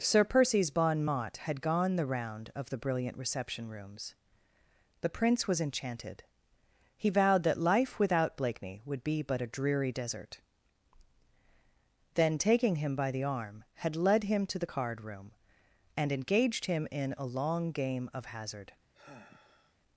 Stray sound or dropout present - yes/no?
yes